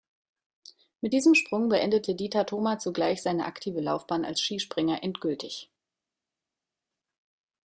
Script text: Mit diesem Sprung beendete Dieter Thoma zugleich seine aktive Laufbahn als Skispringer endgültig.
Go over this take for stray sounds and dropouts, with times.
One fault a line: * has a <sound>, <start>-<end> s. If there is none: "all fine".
all fine